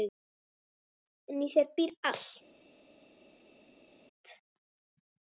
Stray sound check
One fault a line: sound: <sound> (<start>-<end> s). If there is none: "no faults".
no faults